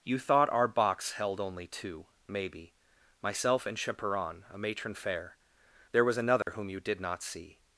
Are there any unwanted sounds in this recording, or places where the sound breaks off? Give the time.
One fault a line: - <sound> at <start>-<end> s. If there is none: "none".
- dropout at 6.4-6.5 s